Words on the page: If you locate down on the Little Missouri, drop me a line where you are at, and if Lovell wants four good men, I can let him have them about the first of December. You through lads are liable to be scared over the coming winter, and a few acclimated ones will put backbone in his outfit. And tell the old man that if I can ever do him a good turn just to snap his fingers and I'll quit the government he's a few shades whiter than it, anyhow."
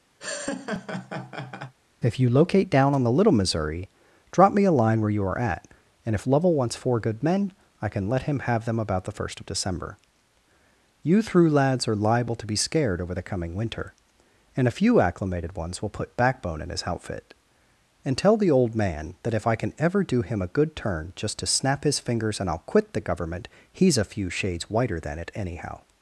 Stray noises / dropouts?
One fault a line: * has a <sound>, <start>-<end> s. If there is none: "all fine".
* has a laugh, 0.2-1.7 s